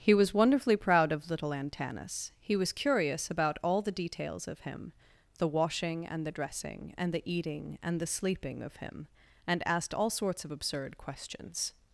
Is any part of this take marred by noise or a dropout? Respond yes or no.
no